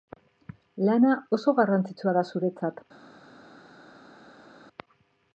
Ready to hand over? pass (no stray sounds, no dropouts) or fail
pass